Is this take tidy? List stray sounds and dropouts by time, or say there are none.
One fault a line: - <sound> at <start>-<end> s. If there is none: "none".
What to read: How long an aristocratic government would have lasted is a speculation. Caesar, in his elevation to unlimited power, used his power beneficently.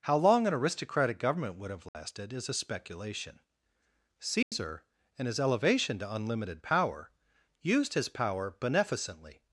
- dropout at 1.9-1.9 s
- dropout at 4.4-4.5 s